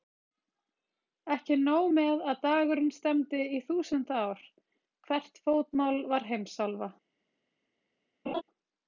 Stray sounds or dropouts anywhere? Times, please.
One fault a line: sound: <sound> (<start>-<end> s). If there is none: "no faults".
sound: laugh (8.3-8.4 s)